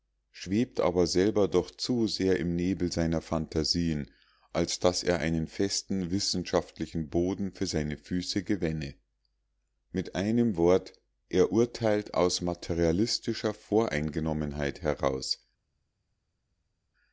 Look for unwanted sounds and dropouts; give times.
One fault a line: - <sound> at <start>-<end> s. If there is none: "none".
none